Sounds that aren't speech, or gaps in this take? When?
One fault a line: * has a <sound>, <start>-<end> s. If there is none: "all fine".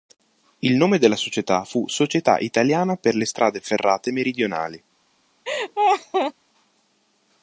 * has a laugh, 5.5-6.3 s